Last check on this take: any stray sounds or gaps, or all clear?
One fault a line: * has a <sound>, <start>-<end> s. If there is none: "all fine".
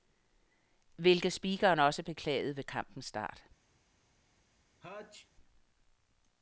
* has a sneeze, 4.8-5.3 s